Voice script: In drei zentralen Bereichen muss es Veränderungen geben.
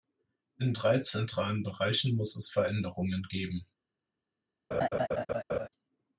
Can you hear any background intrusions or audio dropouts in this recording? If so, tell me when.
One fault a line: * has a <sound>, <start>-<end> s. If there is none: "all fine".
* has a laugh, 4.7-5.7 s